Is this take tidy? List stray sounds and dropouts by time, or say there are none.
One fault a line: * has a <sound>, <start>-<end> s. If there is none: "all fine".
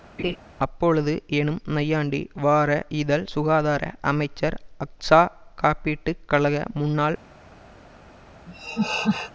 * has a laugh, 0.2-0.4 s
* has a laugh, 8.5-9.3 s